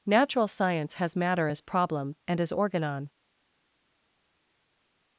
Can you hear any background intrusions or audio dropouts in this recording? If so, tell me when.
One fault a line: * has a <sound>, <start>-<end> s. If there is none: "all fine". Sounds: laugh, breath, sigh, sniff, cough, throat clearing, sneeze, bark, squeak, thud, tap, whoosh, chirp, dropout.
all fine